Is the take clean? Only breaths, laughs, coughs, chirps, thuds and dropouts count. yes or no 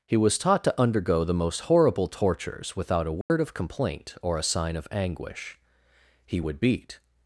no